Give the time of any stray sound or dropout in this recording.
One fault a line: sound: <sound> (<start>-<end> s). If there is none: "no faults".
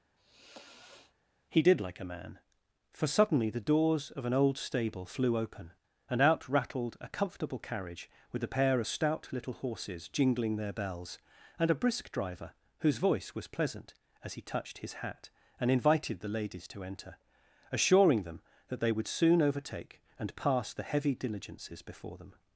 sound: sigh (0.2-1.1 s)